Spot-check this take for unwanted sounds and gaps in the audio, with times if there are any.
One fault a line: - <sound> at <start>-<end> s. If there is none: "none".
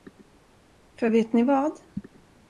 none